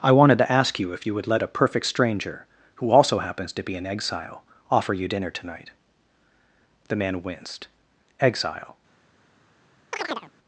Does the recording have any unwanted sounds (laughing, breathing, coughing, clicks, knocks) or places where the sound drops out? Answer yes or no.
yes